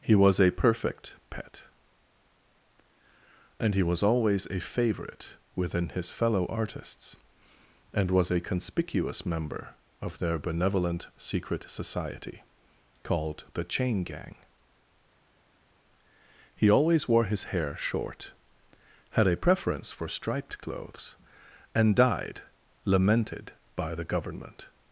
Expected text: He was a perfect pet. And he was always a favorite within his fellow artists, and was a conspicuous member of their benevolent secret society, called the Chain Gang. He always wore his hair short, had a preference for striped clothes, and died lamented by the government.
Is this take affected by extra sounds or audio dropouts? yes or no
no